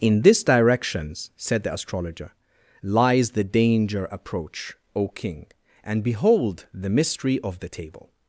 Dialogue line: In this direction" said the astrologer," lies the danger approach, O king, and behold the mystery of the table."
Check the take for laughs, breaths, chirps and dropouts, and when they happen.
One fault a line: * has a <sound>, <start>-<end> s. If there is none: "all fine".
all fine